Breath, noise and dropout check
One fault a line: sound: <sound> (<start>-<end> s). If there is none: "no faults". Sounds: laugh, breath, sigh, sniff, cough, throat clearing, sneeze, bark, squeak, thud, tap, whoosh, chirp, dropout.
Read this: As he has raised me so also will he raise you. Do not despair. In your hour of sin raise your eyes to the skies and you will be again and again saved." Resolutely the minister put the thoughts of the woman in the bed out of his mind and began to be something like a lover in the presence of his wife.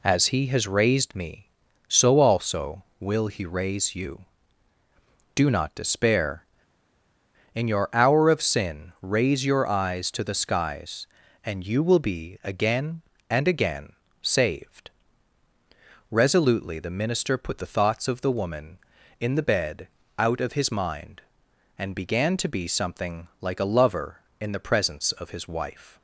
no faults